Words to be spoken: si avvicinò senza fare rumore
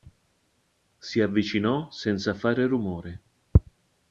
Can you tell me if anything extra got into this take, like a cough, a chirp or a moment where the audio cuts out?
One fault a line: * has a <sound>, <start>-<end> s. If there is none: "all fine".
all fine